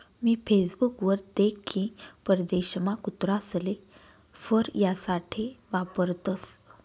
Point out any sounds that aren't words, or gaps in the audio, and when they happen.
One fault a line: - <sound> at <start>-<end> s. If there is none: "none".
none